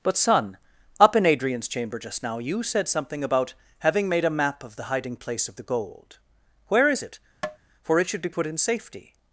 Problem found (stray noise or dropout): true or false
true